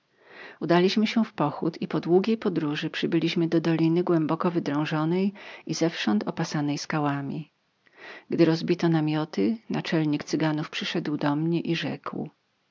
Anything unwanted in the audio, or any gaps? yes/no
no